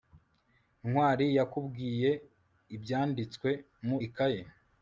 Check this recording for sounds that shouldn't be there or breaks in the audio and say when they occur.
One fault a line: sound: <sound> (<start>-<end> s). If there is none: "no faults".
no faults